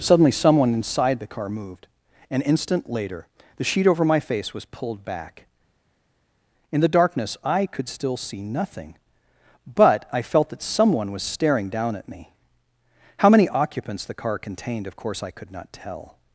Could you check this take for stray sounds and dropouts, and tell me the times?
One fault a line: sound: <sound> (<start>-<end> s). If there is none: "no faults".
no faults